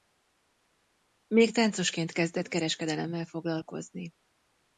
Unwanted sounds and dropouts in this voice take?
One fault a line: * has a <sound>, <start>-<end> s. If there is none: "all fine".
all fine